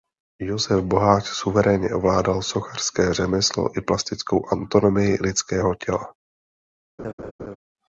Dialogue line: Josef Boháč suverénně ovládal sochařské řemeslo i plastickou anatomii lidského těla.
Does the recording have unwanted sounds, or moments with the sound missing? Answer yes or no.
yes